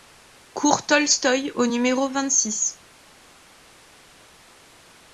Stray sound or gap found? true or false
false